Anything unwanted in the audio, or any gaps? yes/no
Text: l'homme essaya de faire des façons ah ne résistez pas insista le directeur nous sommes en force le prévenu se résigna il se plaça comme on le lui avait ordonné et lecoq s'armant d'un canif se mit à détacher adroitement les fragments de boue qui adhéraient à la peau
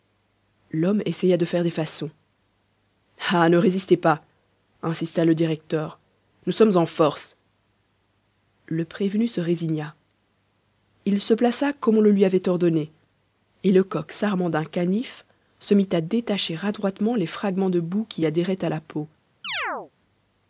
yes